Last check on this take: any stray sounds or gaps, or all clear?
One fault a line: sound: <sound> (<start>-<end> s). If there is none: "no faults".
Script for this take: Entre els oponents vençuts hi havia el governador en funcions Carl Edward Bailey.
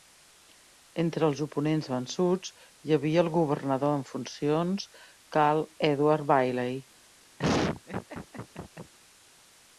sound: laugh (7.4-8.9 s)